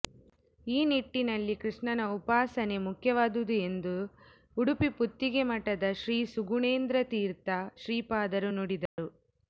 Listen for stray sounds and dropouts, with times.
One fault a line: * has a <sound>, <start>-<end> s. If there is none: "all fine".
* has a dropout, 8.9-9.0 s